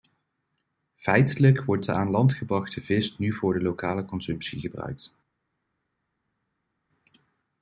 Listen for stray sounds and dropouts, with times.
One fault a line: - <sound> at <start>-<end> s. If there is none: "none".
none